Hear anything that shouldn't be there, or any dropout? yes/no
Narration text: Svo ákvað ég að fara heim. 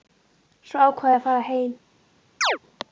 yes